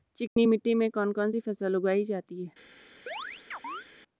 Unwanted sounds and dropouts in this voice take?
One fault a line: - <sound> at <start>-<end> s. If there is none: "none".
- dropout at 0.3-0.4 s
- chirp at 3.1-3.9 s